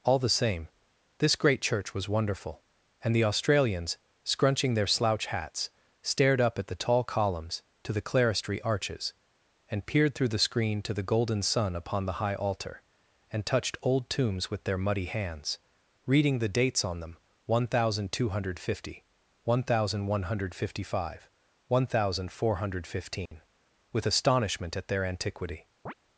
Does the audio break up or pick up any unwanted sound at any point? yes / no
yes